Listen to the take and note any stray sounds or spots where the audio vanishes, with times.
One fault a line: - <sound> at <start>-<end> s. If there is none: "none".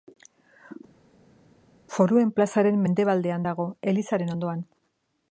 none